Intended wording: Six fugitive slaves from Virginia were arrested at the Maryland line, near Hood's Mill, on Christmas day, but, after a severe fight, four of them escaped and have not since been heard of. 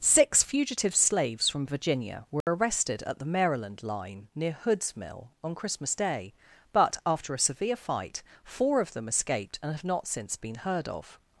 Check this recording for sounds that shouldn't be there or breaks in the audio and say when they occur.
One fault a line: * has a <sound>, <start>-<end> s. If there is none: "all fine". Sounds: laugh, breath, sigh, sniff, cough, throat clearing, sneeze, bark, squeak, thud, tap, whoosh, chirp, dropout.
* has a dropout, 2.4-2.5 s